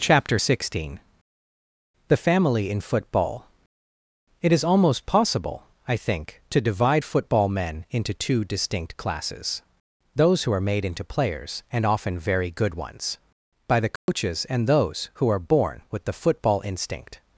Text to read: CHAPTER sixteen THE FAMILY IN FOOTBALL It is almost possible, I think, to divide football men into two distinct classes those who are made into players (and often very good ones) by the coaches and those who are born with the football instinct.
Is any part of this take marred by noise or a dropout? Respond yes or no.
yes